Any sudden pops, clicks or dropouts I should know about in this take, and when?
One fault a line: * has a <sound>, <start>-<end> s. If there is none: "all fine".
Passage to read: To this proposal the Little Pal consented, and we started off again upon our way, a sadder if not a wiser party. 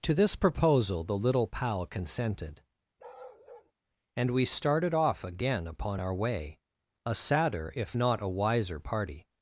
* has a bark, 3.0-3.7 s